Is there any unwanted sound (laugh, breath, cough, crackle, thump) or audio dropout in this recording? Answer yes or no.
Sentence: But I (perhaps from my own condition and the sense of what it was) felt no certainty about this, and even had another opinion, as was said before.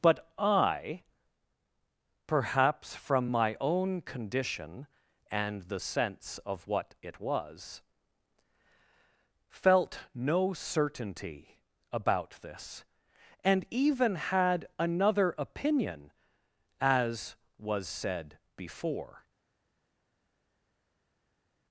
no